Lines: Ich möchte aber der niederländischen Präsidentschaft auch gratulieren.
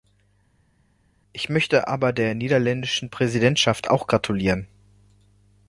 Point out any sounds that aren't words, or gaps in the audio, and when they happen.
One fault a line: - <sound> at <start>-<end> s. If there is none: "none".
none